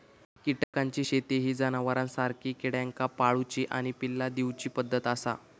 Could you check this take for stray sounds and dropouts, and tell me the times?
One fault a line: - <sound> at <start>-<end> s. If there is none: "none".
- dropout at 0.6-0.7 s